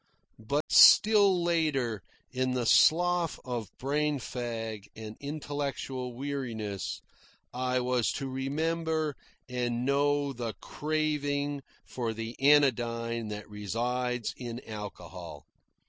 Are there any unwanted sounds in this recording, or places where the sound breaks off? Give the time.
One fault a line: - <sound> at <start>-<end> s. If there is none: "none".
- dropout at 0.6-0.7 s